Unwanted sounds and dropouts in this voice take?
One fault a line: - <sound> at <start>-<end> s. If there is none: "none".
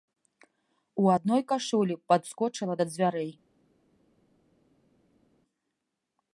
none